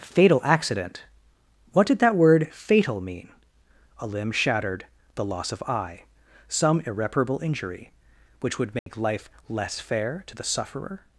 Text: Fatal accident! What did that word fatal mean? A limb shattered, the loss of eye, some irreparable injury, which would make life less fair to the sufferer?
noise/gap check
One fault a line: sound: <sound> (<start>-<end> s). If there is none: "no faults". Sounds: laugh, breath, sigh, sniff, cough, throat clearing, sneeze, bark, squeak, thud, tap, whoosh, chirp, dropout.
sound: dropout (8.8-8.9 s)